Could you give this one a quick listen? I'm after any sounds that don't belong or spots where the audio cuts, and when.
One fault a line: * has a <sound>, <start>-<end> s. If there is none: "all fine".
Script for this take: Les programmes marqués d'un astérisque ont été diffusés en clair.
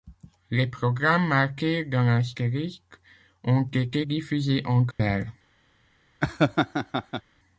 * has a dropout, 4.9-5.0 s
* has a laugh, 6.2-7.2 s